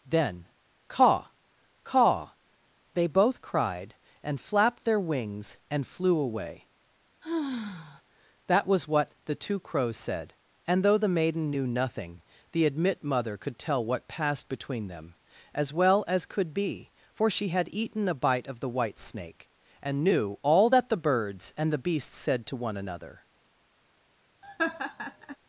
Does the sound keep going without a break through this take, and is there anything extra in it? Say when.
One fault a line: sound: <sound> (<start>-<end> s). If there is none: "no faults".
sound: sigh (7.2-8.0 s)
sound: laugh (24.4-25.4 s)